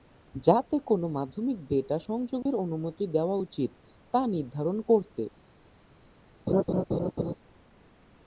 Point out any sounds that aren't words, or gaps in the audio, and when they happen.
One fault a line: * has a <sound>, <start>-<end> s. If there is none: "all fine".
* has a dropout, 2.4-2.5 s
* has a laugh, 6.5-7.3 s